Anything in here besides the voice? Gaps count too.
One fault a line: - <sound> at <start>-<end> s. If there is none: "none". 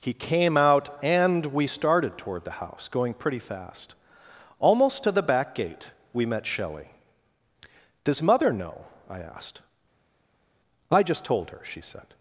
none